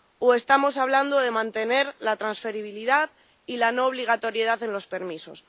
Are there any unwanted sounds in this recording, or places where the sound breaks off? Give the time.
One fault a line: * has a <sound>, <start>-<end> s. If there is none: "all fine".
all fine